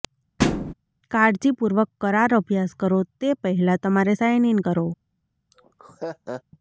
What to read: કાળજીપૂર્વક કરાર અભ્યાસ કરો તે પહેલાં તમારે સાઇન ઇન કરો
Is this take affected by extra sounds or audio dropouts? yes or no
yes